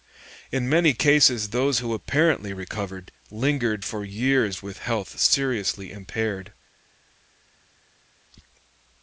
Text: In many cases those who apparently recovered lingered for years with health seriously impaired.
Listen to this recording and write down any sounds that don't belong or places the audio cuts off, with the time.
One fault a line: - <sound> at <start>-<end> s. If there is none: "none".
none